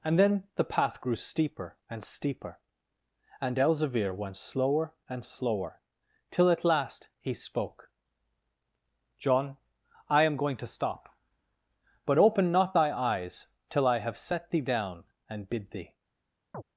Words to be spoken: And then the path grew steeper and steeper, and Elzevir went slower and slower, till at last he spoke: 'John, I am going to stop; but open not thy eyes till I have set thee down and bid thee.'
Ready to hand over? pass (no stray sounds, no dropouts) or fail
fail